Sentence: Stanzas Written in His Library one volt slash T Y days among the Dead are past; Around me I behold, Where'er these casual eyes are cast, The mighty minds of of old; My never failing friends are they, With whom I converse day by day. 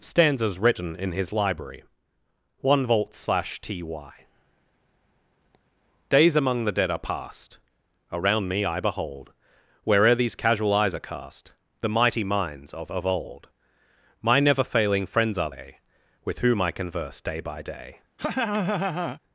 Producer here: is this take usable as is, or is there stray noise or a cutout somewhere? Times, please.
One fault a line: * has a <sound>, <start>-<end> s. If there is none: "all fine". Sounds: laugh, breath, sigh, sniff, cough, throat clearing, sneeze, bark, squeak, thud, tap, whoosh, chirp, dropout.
* has a laugh, 18.2-19.2 s